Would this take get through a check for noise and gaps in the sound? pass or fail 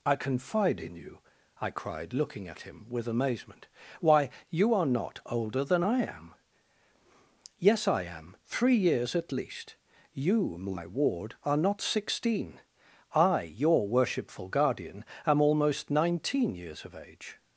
pass